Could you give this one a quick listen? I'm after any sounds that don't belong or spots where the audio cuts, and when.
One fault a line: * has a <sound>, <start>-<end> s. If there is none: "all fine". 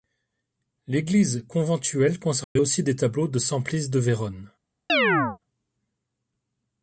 * has a dropout, 2.4-2.6 s
* has a chirp, 4.9-5.4 s